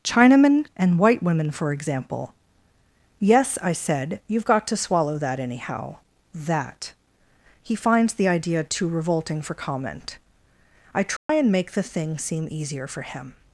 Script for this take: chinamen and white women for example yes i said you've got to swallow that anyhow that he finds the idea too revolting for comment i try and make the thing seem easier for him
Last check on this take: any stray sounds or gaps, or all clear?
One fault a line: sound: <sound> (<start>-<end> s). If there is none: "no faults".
sound: dropout (11.2-11.3 s)